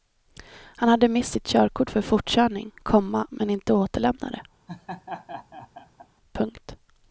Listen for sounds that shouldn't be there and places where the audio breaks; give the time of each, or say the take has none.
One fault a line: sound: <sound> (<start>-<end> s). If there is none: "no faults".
sound: laugh (4.7-6.1 s)